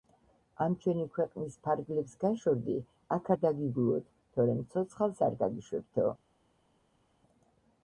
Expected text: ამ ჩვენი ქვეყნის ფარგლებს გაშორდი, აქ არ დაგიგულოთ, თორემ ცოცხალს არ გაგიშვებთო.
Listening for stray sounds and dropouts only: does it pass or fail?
pass